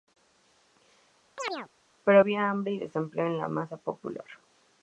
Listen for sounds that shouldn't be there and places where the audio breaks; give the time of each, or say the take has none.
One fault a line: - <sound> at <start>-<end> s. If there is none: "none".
- chirp at 1.4-1.7 s